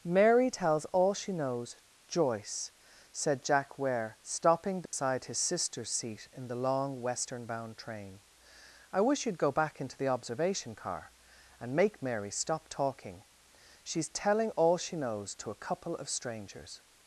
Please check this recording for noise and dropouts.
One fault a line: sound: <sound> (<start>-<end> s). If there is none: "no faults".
sound: dropout (4.9-4.9 s)